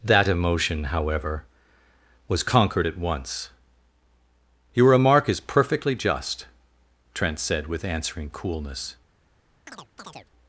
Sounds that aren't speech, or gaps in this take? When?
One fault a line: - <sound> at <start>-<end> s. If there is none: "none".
- chirp at 9.7-10.3 s